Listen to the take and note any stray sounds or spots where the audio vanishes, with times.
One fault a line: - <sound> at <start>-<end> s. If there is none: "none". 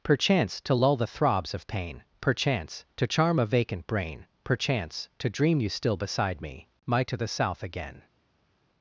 none